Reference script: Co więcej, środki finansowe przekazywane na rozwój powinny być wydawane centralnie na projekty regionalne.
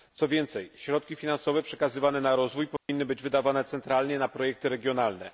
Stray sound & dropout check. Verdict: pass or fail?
fail